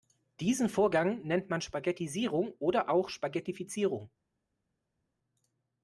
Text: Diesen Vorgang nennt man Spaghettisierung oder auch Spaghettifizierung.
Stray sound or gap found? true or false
false